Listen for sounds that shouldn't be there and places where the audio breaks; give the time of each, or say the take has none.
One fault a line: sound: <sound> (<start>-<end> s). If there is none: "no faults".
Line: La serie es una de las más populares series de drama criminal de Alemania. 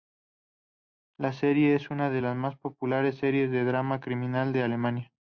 no faults